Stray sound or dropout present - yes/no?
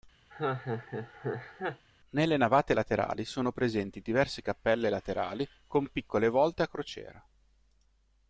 yes